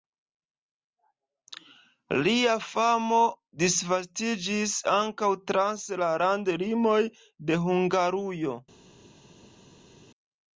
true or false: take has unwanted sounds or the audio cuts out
false